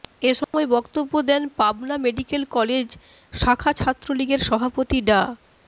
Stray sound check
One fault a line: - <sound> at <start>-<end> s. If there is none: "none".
- dropout at 0.4-0.5 s